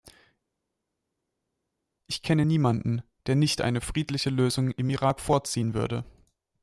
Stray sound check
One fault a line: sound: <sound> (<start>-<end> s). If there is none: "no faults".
no faults